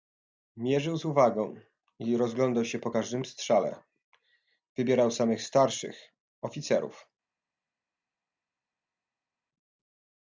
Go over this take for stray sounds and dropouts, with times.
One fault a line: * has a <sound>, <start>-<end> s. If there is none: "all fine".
all fine